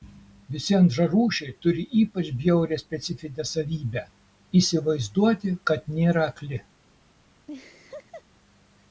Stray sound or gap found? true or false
true